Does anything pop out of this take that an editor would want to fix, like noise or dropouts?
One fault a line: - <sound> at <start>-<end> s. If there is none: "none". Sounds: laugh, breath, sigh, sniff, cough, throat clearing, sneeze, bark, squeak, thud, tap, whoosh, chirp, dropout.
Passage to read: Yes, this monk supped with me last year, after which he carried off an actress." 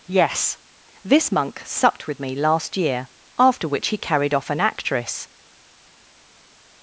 none